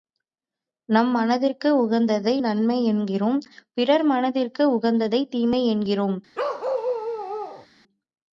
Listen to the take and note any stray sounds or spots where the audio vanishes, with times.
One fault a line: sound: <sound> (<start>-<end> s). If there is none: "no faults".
sound: bark (6.3-7.7 s)